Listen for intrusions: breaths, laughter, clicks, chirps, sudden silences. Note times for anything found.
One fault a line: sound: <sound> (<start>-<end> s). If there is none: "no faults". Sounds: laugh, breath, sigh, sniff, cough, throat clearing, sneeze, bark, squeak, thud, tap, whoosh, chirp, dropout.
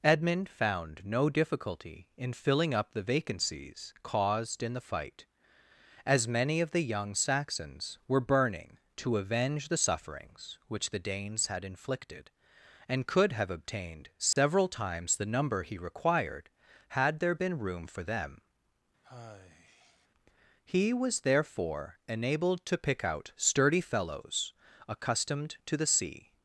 sound: dropout (14.3-14.4 s)
sound: sigh (19.0-20.1 s)